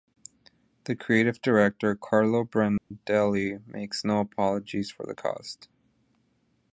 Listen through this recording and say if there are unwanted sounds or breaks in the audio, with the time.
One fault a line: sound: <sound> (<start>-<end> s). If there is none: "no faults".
sound: dropout (2.8-2.9 s)